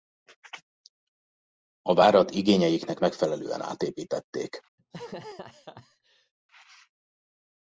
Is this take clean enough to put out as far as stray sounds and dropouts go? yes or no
no